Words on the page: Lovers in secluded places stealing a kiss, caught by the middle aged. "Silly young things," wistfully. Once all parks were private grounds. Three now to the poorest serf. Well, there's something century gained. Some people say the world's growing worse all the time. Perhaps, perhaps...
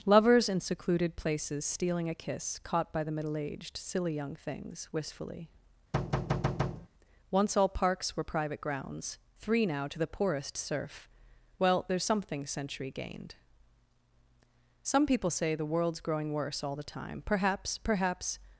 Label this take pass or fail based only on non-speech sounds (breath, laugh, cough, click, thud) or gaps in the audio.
fail